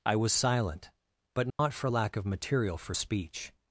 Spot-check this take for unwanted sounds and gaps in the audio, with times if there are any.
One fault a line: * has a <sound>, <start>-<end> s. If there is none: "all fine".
* has a dropout, 1.5-1.6 s